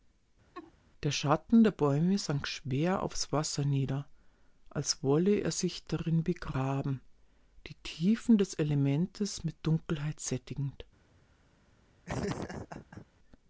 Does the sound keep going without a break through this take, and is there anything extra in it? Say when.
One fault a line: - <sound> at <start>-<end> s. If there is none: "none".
- laugh at 0.5-0.7 s
- laugh at 12.1-13.1 s